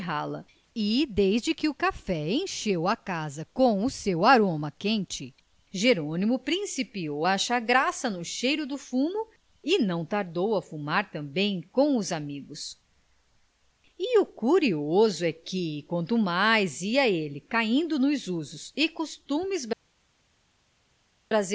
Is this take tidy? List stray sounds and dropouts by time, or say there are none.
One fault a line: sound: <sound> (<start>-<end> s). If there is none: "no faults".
no faults